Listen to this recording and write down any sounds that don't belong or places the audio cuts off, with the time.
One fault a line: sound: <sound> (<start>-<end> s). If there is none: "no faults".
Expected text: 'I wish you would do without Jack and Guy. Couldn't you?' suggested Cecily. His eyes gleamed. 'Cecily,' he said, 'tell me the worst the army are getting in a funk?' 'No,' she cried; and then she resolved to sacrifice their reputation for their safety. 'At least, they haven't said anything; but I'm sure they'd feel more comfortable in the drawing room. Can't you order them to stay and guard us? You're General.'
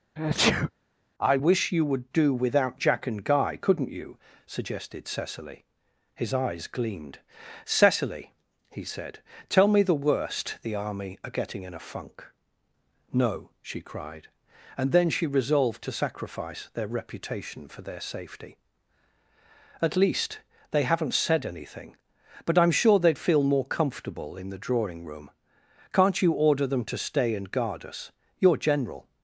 sound: sneeze (0.2-0.7 s)